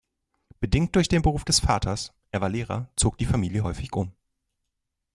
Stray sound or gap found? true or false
false